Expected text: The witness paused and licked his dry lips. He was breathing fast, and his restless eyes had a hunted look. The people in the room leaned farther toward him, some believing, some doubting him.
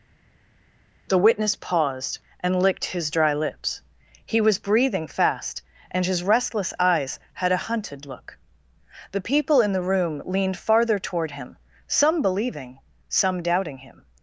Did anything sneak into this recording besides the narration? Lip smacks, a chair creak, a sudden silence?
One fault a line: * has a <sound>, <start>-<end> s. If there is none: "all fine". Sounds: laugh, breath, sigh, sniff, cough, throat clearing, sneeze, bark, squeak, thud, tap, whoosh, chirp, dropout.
all fine